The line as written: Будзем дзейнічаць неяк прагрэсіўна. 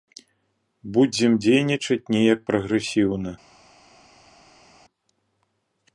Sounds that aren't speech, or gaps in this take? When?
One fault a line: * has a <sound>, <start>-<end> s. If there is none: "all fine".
all fine